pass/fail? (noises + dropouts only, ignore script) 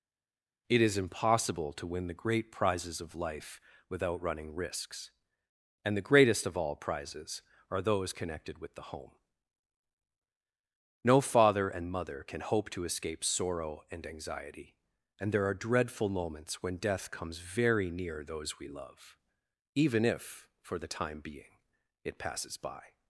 pass